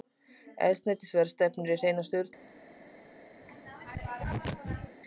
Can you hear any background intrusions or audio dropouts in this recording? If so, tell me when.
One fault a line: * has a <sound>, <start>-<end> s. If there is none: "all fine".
* has a throat clearing, 3.4-5.0 s